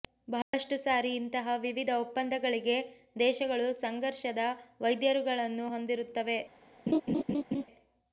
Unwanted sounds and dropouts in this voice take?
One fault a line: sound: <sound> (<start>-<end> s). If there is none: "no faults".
sound: dropout (0.4-0.5 s)
sound: laugh (6.9-7.6 s)